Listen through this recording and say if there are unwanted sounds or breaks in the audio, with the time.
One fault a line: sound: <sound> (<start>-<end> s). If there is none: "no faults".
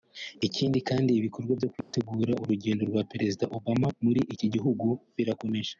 sound: dropout (1.8-1.9 s)